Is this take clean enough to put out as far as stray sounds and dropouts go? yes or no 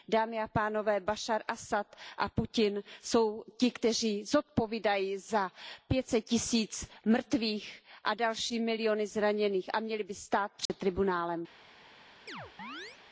no